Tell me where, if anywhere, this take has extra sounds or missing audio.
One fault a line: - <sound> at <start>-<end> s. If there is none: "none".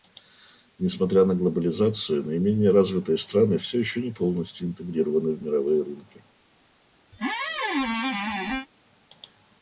- squeak at 7.1-8.7 s